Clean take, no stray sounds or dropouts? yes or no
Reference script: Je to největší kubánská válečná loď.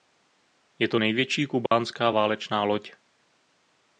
no